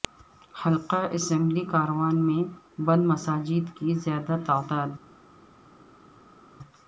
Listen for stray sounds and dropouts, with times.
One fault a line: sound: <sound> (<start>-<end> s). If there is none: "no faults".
no faults